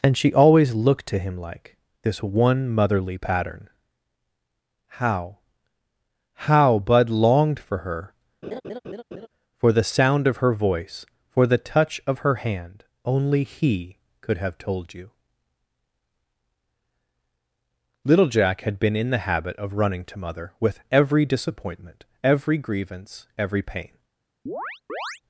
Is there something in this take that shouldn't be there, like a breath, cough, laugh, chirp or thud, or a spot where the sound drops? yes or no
yes